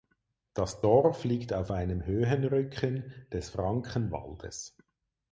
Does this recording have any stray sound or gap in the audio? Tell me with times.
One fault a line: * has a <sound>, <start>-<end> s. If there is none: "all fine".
all fine